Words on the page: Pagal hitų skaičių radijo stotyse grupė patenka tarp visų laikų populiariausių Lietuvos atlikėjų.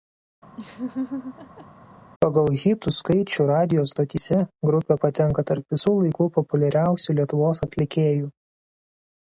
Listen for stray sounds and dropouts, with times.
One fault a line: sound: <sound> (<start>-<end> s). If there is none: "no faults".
sound: laugh (0.6-1.7 s)